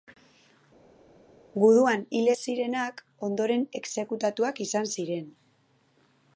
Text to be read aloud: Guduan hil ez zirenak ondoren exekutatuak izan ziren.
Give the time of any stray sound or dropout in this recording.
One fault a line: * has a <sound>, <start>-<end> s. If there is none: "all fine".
all fine